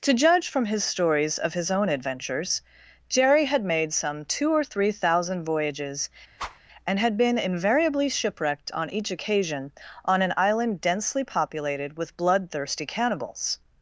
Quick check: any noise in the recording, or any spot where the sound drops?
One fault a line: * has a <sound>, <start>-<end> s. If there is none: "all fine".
* has a whoosh, 6.4-6.6 s